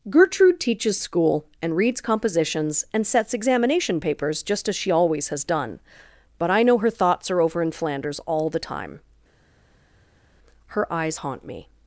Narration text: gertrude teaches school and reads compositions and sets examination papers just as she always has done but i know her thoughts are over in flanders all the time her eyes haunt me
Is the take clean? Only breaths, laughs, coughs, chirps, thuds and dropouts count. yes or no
yes